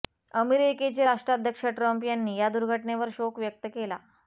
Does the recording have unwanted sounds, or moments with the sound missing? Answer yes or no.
no